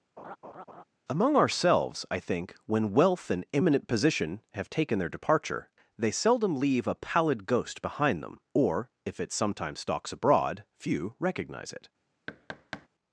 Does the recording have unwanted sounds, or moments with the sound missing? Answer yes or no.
yes